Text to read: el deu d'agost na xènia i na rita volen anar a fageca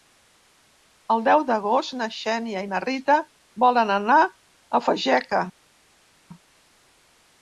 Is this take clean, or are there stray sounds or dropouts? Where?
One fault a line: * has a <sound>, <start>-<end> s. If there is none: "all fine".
all fine